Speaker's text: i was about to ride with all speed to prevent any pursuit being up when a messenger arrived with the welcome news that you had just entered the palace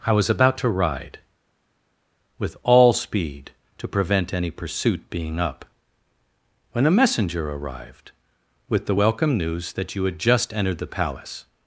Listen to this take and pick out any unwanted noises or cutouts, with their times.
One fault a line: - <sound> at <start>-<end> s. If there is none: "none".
none